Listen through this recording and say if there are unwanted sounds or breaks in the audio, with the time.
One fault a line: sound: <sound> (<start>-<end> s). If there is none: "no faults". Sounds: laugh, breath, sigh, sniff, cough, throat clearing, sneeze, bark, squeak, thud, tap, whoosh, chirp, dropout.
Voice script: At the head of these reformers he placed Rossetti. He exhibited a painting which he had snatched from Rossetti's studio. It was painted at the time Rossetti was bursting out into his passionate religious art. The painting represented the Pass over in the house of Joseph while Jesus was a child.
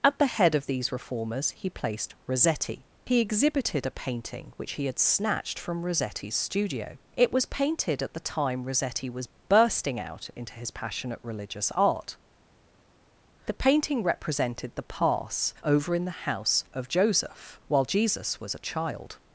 no faults